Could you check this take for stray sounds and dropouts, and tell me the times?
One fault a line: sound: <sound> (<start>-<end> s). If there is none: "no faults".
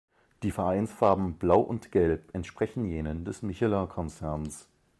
no faults